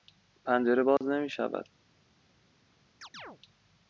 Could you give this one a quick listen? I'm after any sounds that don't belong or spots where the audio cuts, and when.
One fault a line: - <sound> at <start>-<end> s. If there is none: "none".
- dropout at 1.0-1.0 s
- chirp at 3.0-3.4 s